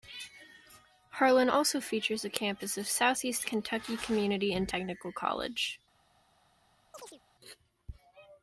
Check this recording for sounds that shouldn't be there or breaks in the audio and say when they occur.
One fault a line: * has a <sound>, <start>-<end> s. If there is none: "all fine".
* has a chirp, 6.9-7.2 s